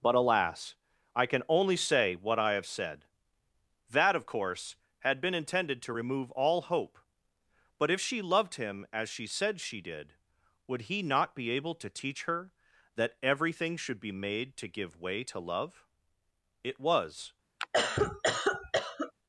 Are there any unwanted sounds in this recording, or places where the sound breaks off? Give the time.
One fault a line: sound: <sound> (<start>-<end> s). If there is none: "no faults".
sound: cough (17.6-19.1 s)